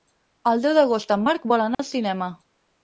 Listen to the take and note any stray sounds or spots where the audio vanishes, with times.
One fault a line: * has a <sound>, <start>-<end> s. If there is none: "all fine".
* has a dropout, 1.7-1.8 s